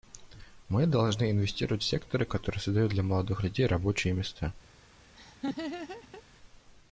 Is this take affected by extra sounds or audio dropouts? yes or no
yes